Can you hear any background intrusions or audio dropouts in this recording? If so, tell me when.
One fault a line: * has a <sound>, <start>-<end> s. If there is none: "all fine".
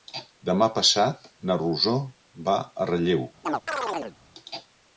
* has a chirp, 3.4-4.2 s